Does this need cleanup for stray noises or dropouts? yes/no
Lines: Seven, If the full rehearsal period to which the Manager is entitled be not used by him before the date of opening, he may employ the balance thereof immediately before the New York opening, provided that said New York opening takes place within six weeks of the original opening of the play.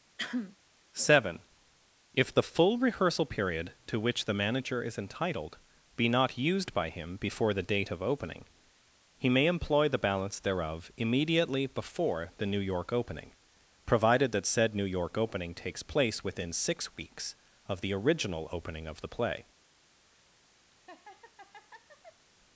yes